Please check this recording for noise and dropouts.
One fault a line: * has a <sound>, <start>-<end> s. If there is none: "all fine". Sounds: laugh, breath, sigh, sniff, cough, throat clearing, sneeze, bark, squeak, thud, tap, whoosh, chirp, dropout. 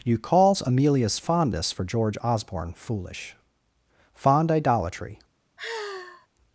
* has a sigh, 5.6-6.3 s